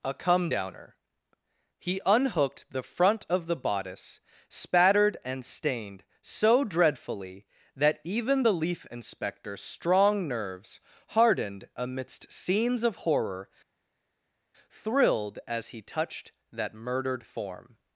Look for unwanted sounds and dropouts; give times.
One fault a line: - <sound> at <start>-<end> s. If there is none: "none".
none